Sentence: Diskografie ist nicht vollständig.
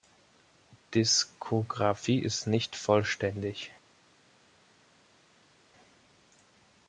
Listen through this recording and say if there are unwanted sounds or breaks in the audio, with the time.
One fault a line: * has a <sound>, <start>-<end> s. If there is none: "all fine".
all fine